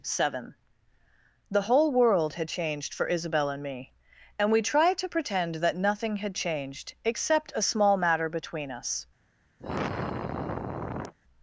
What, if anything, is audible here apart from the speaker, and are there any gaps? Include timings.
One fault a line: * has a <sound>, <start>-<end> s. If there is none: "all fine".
* has a sigh, 9.6-11.1 s